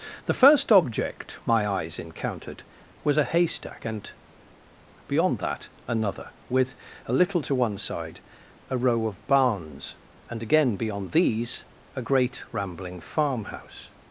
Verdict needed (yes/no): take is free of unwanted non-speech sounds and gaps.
yes